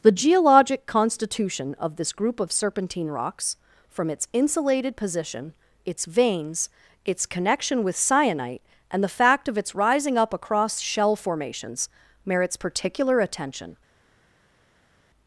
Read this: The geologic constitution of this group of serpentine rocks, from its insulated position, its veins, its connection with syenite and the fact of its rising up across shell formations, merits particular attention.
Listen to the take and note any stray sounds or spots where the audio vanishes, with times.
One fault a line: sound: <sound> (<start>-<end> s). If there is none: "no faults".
no faults